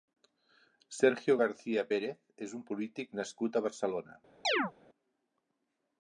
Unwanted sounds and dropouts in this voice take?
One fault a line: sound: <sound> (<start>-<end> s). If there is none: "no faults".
sound: chirp (4.4-4.7 s)